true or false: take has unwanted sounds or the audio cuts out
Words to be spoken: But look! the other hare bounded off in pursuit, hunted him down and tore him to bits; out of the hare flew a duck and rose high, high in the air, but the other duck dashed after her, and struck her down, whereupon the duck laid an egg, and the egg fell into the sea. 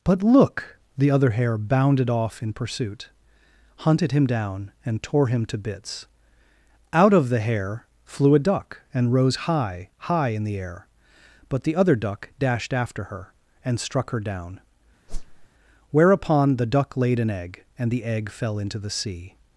true